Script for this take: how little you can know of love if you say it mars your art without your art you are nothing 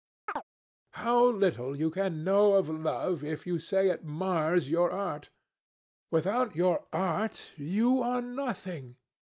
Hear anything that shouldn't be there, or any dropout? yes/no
yes